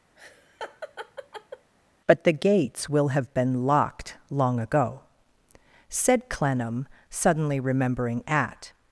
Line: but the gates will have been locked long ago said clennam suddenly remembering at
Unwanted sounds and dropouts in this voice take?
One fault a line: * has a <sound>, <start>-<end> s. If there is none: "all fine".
* has a laugh, 0.2-1.7 s